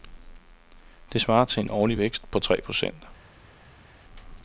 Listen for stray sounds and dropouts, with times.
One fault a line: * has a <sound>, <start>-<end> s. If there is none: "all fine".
all fine